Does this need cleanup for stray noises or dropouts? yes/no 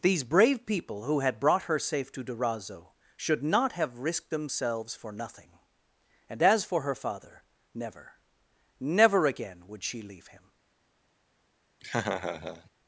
yes